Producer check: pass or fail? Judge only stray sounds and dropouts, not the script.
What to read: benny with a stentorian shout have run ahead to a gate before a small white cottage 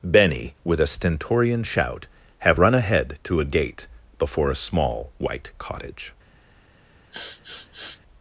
fail